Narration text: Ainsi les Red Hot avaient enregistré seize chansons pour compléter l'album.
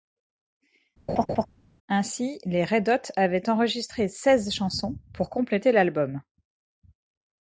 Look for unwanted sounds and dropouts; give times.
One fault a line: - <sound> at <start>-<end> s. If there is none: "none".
- laugh at 1.1-1.5 s